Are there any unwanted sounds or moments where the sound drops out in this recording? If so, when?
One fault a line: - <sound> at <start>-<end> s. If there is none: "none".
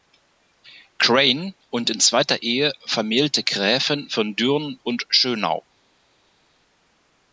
none